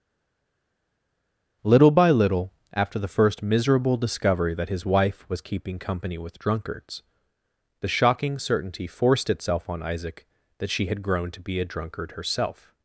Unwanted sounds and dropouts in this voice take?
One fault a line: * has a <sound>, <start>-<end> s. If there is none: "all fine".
all fine